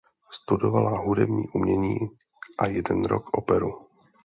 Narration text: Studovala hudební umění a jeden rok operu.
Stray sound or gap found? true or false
false